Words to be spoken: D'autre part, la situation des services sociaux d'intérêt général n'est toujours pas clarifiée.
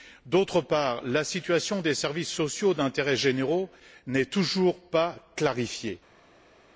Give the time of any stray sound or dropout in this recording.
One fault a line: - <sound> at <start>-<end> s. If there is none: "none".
none